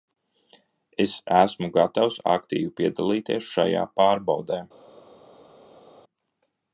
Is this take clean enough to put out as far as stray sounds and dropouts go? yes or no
yes